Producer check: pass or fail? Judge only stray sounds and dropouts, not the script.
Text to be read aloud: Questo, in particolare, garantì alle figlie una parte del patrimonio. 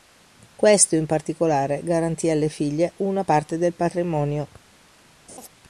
fail